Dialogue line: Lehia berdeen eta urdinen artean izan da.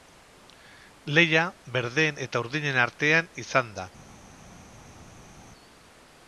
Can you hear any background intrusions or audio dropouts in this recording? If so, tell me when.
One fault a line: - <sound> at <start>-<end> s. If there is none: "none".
none